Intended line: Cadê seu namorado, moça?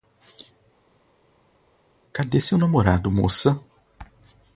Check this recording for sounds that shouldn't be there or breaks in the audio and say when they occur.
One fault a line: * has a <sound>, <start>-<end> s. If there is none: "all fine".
all fine